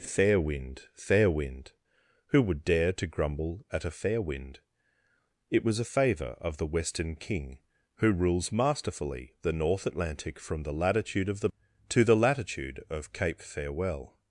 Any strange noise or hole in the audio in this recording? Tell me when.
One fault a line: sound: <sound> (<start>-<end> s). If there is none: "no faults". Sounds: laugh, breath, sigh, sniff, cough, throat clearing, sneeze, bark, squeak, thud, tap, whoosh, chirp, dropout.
no faults